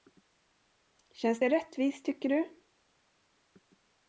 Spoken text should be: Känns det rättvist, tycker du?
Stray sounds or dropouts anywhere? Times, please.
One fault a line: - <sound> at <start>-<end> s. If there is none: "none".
none